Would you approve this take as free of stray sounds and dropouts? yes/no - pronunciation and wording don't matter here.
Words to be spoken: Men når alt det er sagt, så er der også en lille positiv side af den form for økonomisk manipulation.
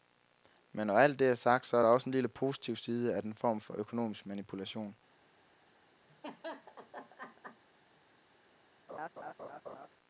no